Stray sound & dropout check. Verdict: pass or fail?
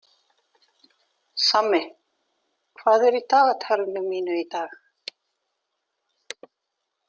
pass